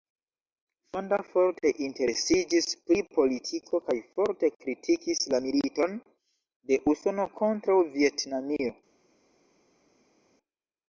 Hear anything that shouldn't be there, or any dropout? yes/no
no